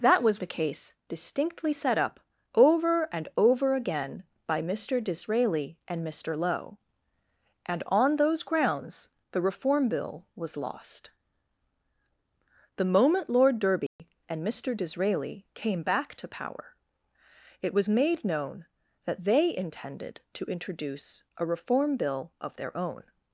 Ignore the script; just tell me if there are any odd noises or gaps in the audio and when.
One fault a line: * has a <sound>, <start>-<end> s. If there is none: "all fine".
* has a dropout, 13.9-14.0 s